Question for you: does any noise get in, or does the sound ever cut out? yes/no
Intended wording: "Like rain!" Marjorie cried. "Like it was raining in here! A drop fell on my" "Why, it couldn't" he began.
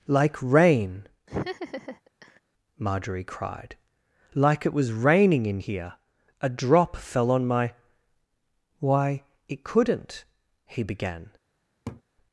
yes